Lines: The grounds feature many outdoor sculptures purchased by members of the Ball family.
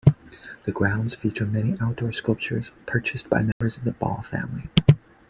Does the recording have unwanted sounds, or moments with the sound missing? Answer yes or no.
yes